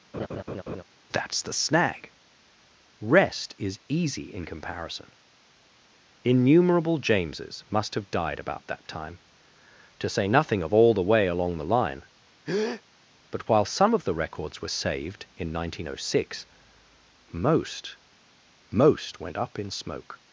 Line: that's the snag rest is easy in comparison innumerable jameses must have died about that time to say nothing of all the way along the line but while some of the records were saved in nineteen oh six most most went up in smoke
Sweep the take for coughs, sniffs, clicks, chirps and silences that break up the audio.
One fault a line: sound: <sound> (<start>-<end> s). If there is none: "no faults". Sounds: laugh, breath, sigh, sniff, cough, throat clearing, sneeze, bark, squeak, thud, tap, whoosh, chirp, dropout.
sound: laugh (0.1-0.8 s)
sound: breath (12.5-12.8 s)